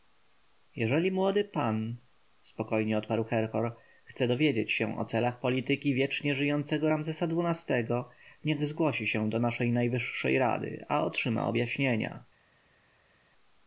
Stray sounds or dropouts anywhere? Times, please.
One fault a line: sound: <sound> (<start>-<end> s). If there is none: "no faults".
no faults